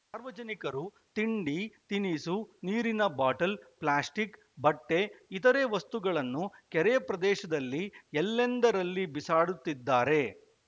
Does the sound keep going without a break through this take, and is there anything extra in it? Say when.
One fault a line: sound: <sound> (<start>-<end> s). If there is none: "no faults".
no faults